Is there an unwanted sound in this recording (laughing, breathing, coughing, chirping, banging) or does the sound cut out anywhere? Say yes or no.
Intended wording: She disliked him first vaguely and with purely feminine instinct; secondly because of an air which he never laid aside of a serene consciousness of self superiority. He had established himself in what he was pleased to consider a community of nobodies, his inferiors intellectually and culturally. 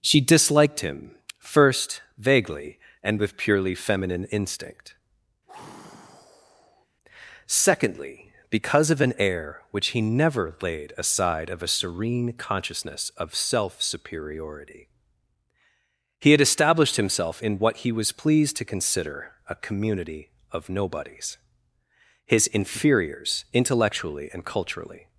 yes